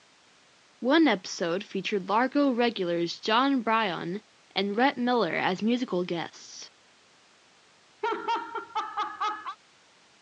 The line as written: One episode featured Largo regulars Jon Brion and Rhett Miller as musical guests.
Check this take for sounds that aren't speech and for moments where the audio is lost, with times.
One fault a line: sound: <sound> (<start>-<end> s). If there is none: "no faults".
sound: laugh (8.0-9.6 s)